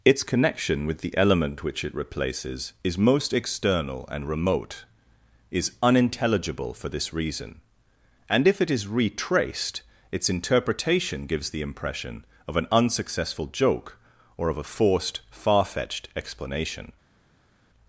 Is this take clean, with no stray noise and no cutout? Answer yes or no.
yes